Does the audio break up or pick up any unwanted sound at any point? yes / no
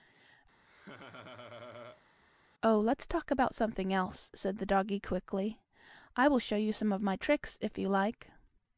yes